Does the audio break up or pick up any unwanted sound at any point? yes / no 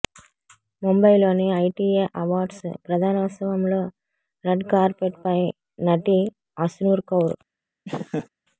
yes